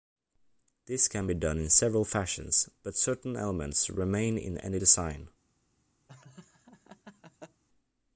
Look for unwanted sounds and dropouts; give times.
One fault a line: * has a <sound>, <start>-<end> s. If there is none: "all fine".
* has a laugh, 6.1-7.6 s